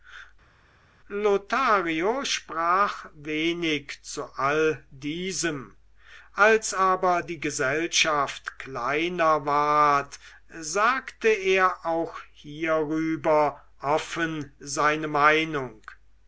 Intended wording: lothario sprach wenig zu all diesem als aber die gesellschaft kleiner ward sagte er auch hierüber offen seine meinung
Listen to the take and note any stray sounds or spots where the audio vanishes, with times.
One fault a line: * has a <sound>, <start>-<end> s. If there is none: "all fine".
all fine